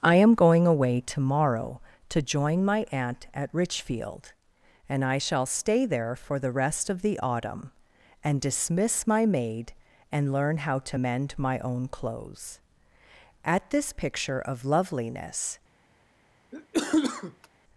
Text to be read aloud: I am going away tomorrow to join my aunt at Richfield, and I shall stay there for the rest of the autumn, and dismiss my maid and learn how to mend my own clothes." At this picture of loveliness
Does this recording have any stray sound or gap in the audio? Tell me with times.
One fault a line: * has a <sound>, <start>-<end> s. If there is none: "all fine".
* has a cough, 16.5-17.5 s